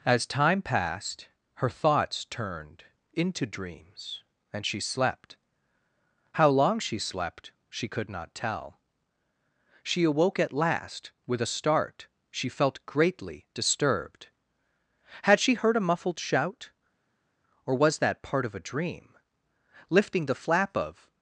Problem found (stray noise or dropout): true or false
false